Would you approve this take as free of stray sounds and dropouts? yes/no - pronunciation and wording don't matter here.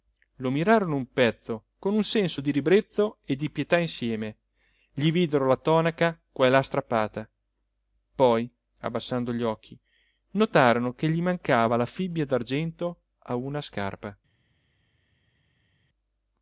yes